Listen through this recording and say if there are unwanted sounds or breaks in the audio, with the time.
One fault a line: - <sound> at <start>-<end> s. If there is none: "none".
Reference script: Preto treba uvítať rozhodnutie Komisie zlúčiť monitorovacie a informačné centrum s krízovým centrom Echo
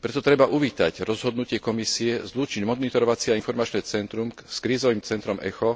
none